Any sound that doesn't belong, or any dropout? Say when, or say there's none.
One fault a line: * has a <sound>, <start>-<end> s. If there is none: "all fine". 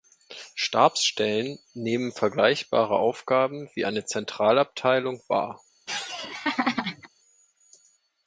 * has a laugh, 5.9-7.1 s